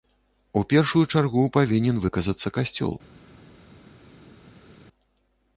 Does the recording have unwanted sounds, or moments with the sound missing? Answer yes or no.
no